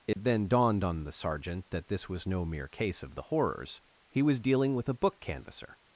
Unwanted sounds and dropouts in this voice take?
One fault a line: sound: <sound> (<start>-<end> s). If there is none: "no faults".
sound: dropout (0.1-0.2 s)